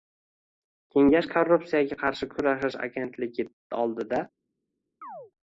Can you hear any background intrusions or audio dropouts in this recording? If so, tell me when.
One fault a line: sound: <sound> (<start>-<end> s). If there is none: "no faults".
sound: chirp (5.0-5.3 s)